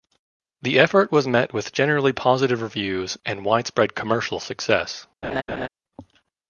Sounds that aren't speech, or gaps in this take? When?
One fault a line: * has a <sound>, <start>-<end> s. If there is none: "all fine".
* has a laugh, 5.2-5.7 s